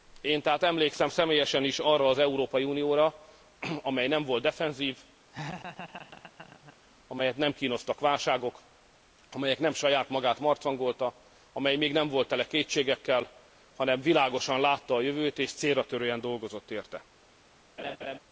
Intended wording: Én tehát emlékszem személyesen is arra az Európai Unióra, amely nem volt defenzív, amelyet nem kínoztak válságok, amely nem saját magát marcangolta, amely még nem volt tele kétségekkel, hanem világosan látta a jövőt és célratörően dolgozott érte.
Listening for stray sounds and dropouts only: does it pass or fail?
fail